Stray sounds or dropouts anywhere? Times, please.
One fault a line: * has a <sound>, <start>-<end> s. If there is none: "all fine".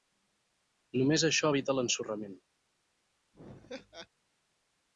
* has a laugh, 3.3-4.1 s